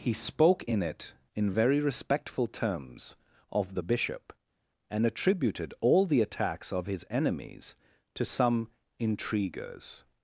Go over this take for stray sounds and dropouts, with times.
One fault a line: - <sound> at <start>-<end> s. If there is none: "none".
none